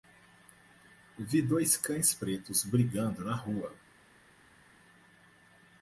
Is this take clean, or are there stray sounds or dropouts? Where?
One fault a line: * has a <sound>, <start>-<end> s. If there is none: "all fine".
all fine